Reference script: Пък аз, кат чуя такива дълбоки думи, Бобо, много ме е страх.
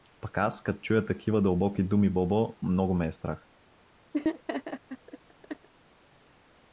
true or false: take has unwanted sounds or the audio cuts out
true